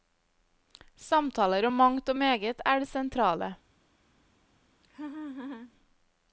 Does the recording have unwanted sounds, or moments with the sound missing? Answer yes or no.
yes